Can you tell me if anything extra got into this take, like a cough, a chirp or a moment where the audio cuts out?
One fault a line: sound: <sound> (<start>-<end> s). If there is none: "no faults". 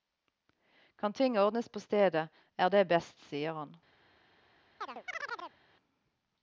sound: chirp (4.8-5.6 s)